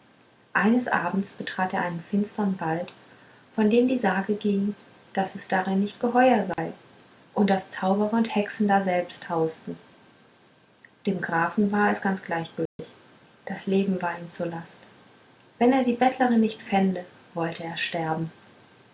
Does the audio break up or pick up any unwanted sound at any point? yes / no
yes